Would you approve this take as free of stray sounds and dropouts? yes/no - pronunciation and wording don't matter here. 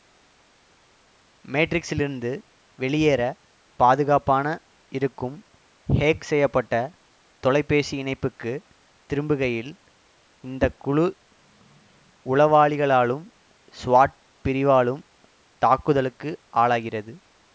yes